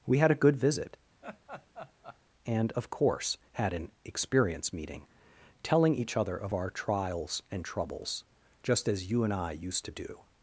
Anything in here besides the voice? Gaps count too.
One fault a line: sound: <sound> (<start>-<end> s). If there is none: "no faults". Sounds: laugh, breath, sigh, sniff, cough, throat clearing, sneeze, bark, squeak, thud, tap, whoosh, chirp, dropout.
sound: laugh (1.2-2.2 s)